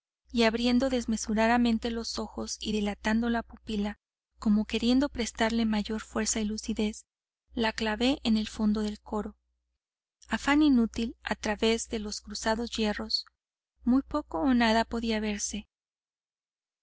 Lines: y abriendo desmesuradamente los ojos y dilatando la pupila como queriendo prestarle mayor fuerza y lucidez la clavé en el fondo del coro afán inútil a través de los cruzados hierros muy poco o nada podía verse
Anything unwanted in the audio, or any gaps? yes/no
no